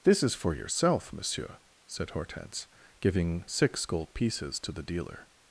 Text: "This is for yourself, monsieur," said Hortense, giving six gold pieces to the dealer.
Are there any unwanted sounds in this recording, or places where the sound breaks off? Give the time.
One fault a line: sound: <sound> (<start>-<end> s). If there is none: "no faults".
no faults